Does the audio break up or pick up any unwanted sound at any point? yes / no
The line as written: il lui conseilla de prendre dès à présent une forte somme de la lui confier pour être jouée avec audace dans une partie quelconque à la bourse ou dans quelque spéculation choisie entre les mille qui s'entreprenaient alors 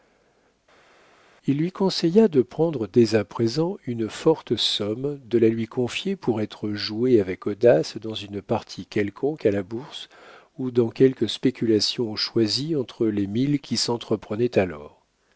no